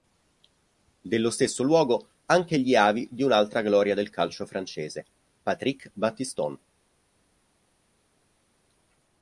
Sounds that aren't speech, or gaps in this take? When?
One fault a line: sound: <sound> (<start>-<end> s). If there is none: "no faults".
no faults